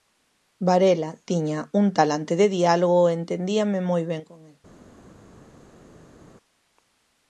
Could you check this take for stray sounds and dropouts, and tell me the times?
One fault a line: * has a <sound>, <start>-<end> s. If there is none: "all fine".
all fine